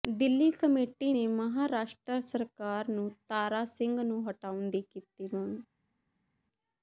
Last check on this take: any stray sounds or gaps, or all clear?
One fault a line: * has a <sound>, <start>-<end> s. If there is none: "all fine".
all fine